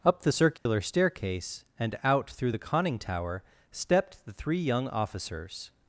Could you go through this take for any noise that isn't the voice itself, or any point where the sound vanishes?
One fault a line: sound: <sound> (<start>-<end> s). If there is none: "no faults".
sound: dropout (0.6-0.7 s)